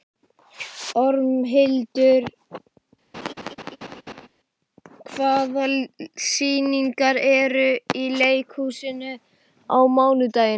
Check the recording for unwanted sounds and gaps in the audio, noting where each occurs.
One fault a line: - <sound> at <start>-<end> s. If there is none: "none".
- laugh at 3.1-4.3 s